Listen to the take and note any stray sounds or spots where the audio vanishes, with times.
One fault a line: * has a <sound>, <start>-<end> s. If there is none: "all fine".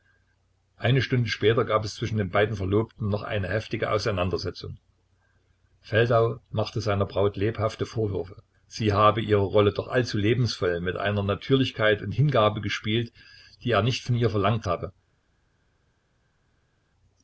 all fine